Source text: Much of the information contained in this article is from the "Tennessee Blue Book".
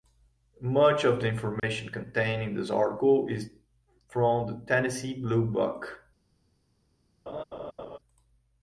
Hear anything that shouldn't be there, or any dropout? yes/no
yes